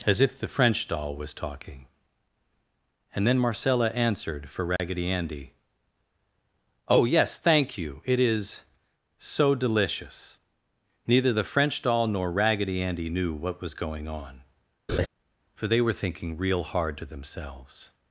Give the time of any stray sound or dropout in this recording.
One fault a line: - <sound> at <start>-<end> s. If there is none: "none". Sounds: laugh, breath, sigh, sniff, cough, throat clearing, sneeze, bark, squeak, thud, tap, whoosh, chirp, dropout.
- dropout at 4.8-4.8 s
- laugh at 14.9-15.1 s